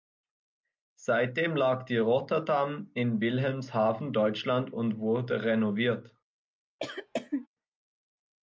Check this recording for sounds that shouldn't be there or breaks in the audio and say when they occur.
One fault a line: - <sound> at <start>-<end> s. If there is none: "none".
- cough at 6.8-7.5 s